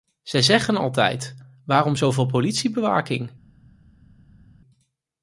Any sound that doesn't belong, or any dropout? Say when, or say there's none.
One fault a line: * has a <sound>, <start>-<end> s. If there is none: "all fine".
all fine